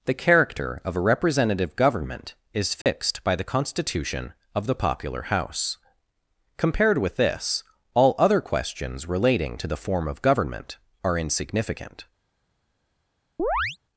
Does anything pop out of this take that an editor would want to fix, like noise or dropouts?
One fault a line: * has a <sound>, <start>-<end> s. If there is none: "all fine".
* has a dropout, 2.8-2.9 s
* has a chirp, 13.4-13.8 s